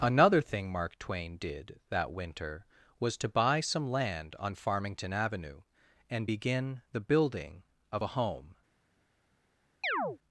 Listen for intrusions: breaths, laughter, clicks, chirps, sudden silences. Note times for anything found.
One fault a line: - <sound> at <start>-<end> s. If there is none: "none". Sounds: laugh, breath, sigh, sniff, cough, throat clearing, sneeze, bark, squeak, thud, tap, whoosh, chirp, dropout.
- chirp at 9.8-10.2 s